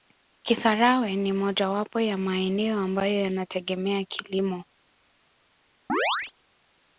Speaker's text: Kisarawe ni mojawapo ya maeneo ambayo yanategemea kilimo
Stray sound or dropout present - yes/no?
yes